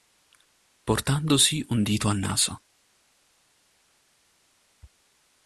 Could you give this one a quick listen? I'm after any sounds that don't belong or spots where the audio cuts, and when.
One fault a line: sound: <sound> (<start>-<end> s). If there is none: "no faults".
no faults